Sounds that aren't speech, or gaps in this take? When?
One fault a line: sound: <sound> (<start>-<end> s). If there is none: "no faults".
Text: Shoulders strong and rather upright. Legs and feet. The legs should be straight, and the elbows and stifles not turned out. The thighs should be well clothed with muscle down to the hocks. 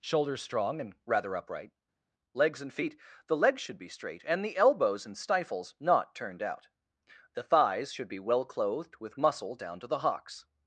no faults